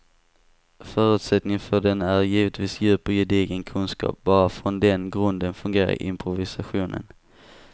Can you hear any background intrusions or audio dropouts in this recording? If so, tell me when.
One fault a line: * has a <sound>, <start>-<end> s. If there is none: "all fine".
all fine